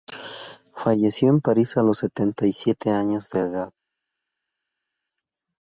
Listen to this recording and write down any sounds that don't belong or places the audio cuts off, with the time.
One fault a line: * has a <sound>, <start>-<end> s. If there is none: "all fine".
all fine